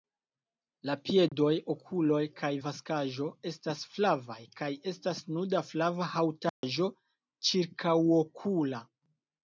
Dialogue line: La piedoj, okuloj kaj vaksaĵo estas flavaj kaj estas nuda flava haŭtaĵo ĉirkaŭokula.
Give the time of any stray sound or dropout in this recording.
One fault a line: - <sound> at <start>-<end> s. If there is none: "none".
- dropout at 1.3-1.3 s
- dropout at 6.5-6.6 s